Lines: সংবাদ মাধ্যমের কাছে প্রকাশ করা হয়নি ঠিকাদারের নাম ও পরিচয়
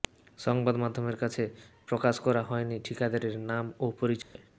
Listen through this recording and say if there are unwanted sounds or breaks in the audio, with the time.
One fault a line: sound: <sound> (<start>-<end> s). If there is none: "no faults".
sound: dropout (4.2-4.4 s)